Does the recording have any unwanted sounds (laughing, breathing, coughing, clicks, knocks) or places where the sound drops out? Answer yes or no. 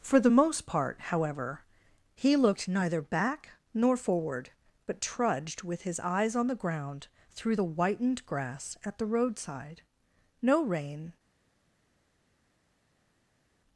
no